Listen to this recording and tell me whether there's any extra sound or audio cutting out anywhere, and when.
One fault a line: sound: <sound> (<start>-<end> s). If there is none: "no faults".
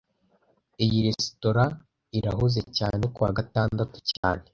sound: dropout (4.2-4.2 s)